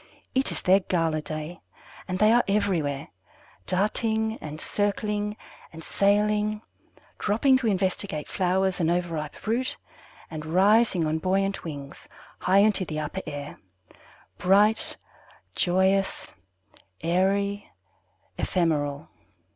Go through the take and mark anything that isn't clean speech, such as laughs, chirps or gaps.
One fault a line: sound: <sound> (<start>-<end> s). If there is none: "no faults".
no faults